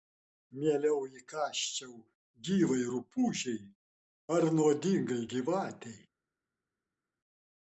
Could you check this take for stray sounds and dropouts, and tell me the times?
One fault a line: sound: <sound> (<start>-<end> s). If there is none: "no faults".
no faults